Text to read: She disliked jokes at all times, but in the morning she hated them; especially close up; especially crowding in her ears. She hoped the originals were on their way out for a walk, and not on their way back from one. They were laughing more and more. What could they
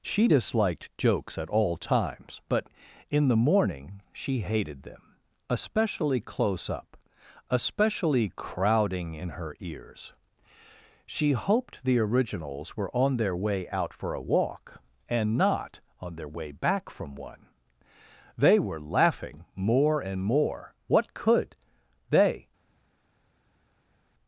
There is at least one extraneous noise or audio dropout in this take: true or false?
false